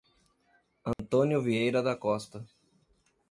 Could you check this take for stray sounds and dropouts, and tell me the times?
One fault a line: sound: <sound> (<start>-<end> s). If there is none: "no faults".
sound: dropout (0.9-1.0 s)